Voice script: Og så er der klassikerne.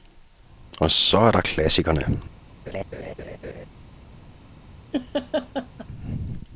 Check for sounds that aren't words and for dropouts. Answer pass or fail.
fail